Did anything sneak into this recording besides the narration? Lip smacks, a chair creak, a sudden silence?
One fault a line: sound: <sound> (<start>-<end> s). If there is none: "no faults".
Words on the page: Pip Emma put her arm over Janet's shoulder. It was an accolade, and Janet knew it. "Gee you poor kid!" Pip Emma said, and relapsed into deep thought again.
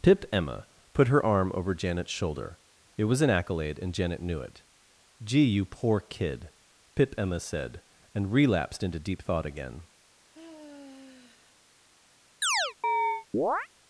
sound: sigh (10.3-11.6 s)
sound: chirp (12.4-13.7 s)